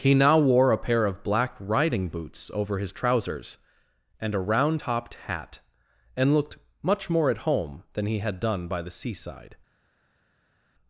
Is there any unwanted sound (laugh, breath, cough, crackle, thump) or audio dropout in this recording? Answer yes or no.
no